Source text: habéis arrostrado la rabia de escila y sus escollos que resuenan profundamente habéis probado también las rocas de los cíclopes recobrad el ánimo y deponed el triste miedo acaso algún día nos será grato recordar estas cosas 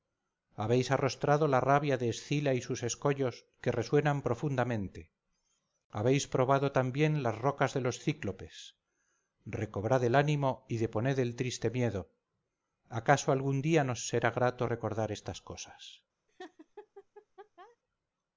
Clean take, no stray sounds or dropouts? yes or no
no